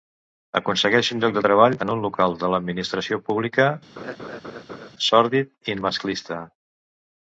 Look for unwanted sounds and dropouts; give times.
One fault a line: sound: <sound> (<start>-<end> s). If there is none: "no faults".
sound: laugh (4.0-4.9 s)